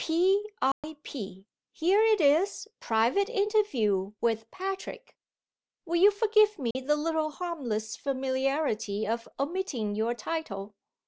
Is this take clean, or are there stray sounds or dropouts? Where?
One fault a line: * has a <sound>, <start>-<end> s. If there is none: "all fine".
* has a dropout, 0.7-0.8 s
* has a dropout, 6.7-6.8 s